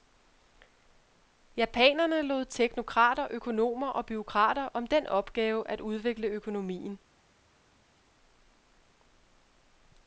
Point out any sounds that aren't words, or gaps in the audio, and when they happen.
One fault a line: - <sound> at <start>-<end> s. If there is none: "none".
none